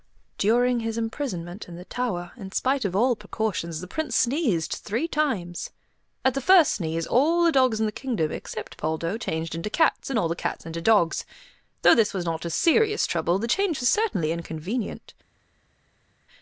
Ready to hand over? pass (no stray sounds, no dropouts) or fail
pass